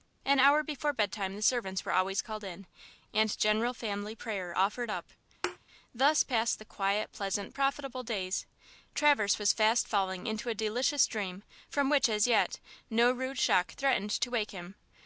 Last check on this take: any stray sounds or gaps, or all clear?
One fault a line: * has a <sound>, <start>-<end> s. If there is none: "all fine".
* has a thud, 5.4-5.6 s